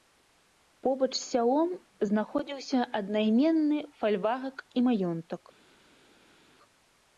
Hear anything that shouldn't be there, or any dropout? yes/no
no